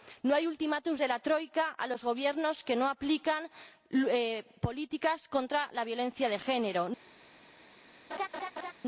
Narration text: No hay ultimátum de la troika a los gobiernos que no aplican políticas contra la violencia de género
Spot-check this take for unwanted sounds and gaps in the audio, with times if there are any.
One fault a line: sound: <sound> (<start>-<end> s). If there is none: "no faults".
sound: laugh (8.1-8.7 s)